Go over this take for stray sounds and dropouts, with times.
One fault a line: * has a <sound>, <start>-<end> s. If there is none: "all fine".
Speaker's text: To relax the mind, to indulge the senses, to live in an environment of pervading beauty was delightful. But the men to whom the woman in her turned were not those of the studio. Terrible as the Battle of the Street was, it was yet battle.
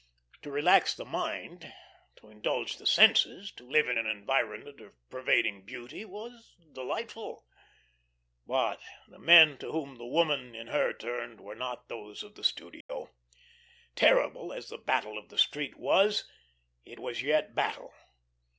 * has a dropout, 12.8-12.9 s